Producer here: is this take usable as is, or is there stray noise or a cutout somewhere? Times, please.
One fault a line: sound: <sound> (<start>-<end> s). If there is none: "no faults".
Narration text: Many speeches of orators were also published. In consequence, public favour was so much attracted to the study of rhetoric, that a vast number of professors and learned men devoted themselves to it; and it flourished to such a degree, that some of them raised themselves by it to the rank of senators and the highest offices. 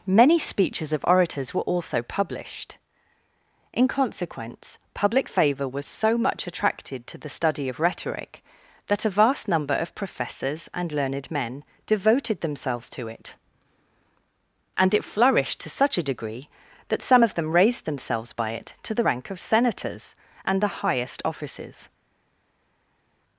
no faults